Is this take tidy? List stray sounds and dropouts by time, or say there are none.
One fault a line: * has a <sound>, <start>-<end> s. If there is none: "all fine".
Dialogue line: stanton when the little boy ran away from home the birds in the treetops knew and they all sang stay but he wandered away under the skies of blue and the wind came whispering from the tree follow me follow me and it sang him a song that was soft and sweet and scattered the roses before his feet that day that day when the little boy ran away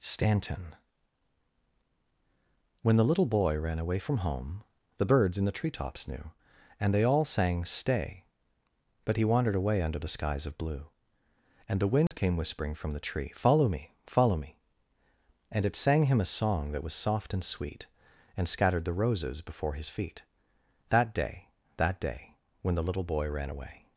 * has a dropout, 12.1-12.1 s